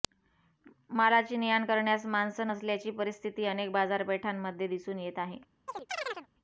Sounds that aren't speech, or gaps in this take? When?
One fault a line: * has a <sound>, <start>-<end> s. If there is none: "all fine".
* has a chirp, 5.7-6.3 s